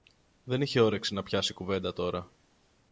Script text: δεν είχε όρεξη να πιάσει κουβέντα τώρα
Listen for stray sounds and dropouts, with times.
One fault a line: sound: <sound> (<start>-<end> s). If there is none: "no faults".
no faults